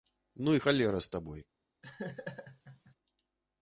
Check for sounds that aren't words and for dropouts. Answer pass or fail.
fail